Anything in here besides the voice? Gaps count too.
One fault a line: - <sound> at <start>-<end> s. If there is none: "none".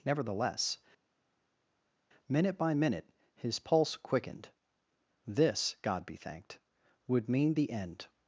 none